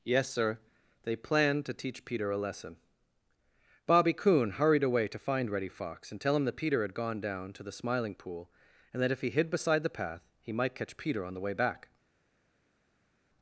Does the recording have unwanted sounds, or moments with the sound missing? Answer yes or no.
no